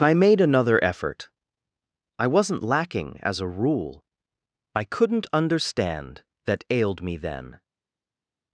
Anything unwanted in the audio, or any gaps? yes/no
no